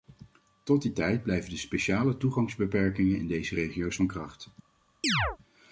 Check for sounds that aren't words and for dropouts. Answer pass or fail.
fail